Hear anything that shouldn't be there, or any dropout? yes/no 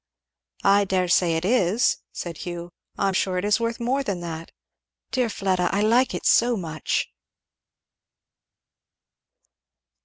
no